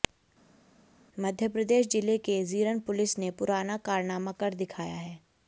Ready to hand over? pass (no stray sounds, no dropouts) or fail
pass